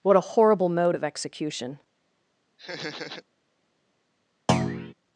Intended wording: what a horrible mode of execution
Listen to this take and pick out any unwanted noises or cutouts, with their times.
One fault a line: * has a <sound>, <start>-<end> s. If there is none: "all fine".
* has a laugh, 2.6-3.2 s
* has a thud, 4.5-4.9 s